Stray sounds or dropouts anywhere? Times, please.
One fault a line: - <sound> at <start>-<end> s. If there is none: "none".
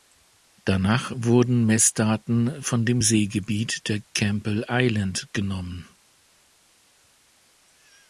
none